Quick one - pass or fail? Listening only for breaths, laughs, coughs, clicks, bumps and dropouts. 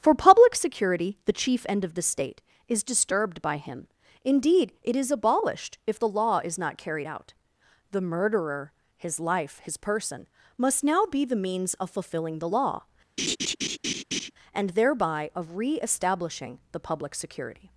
fail